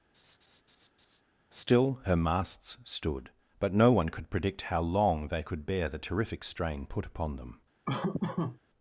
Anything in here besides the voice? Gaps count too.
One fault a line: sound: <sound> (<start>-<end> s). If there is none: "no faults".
sound: laugh (0.1-1.2 s)
sound: laugh (7.9-8.6 s)